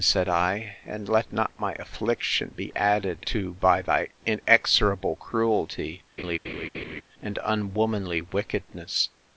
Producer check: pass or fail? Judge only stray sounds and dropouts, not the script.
fail